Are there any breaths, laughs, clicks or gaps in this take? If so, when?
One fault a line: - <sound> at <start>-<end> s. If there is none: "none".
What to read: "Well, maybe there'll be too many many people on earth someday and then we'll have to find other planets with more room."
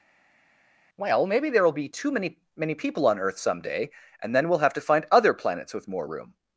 none